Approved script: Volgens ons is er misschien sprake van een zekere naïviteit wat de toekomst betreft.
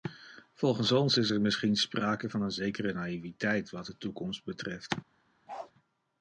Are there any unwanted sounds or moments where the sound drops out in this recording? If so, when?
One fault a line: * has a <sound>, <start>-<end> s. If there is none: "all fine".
* has a bark, 5.5-5.7 s